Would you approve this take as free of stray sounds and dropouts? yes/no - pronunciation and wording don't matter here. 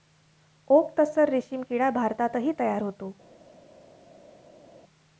yes